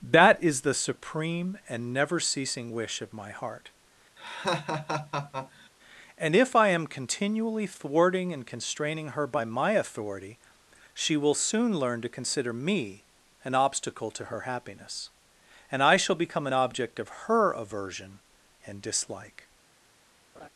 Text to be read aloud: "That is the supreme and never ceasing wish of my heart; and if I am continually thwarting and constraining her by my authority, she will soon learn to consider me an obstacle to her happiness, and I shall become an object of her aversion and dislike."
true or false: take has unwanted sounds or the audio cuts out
true